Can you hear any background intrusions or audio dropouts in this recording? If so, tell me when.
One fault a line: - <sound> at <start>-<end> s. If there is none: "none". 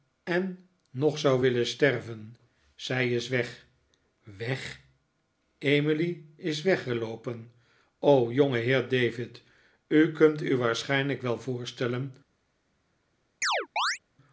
- chirp at 13.4-14.0 s